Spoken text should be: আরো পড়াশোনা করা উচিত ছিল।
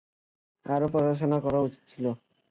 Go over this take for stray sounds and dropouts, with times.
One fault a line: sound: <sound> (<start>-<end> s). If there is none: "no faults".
no faults